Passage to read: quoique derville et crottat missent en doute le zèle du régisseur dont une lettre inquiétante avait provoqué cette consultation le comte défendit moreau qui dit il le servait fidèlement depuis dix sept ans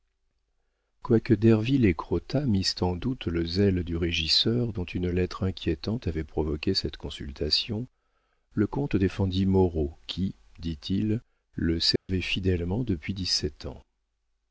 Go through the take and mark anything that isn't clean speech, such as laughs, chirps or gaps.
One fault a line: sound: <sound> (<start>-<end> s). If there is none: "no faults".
sound: dropout (12.0-12.1 s)